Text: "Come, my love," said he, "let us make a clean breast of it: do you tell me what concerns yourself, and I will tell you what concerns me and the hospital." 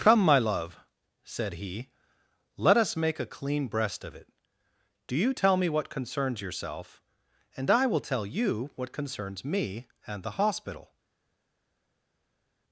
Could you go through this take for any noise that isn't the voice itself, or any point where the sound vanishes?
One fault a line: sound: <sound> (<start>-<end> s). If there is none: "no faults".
no faults